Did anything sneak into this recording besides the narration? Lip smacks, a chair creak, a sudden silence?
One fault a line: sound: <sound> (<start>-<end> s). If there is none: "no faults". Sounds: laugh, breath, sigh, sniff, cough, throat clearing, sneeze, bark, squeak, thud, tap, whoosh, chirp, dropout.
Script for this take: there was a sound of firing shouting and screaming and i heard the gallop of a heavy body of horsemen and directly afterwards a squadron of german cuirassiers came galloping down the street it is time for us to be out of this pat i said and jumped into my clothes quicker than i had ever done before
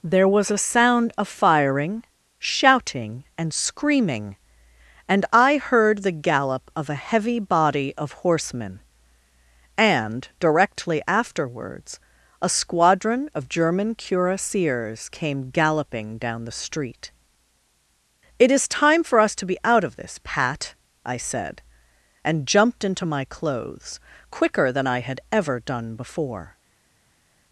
no faults